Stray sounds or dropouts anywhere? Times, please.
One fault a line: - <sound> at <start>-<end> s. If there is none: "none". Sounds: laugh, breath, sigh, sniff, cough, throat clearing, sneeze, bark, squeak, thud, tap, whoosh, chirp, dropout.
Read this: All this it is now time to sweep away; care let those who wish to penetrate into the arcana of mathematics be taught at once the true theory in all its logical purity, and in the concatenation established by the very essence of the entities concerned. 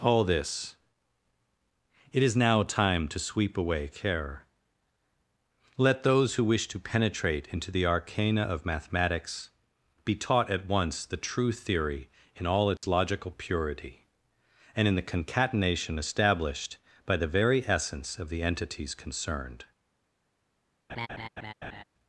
- dropout at 12.8-12.8 s
- laugh at 20.9-21.8 s